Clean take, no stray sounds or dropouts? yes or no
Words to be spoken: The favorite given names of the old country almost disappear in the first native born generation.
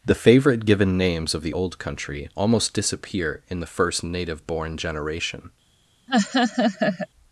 no